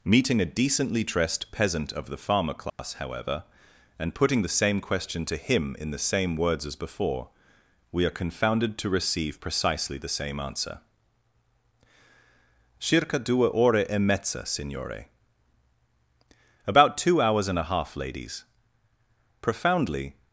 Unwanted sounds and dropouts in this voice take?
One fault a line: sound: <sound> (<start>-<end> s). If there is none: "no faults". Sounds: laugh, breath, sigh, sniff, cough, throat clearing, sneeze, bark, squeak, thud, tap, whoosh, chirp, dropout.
sound: dropout (2.7-2.8 s)